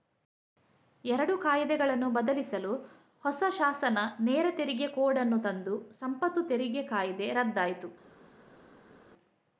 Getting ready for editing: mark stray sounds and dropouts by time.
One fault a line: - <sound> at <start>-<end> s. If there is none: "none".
none